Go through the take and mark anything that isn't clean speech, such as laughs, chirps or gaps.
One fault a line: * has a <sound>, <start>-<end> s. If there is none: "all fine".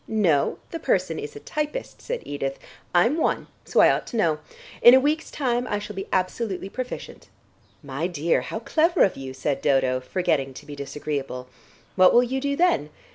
all fine